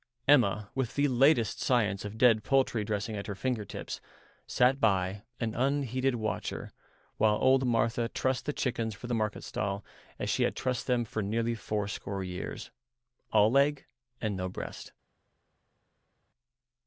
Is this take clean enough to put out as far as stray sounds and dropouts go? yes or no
yes